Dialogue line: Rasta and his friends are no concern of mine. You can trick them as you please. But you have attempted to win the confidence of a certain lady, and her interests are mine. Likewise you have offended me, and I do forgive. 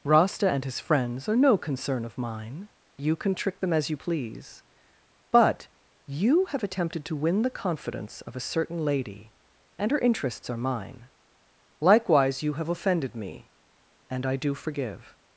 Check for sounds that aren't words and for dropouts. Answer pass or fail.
pass